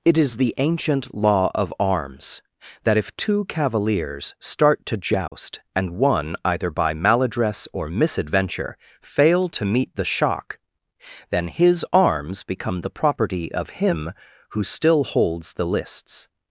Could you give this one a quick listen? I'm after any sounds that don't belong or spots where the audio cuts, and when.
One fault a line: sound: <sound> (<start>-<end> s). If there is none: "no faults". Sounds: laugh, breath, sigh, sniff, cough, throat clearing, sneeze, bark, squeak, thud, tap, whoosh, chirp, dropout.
sound: dropout (5.3-5.3 s)